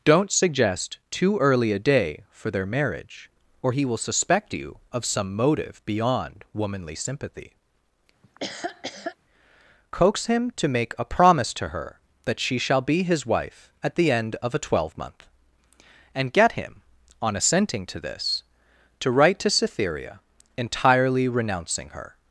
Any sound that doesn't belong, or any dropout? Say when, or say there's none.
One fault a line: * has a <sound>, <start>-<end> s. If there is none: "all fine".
* has a laugh, 8.2-9.2 s